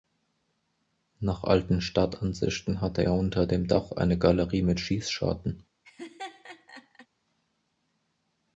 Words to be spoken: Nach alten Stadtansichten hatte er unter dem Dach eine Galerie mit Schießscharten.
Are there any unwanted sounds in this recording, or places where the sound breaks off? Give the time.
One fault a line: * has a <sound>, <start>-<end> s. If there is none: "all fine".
* has a laugh, 5.8-7.1 s